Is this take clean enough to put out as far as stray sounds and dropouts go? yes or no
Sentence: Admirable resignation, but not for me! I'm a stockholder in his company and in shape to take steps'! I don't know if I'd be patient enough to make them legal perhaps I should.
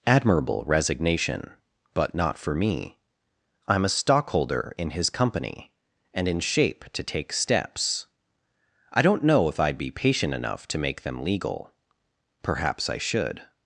yes